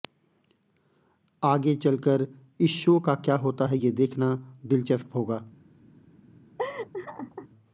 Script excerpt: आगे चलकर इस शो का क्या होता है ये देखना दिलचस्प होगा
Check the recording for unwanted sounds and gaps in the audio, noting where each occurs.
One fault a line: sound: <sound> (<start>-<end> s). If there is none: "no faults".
sound: laugh (6.6-7.5 s)